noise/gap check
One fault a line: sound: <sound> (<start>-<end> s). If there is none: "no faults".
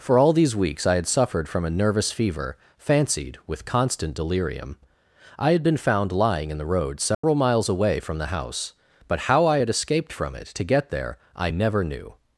sound: dropout (7.1-7.2 s)